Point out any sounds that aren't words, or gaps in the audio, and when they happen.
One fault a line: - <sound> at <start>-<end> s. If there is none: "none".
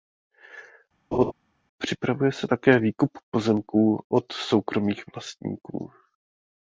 - laugh at 1.1-1.3 s